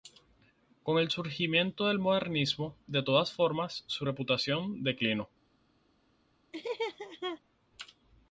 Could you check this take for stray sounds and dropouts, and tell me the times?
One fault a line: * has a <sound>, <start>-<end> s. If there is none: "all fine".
* has a laugh, 6.5-7.4 s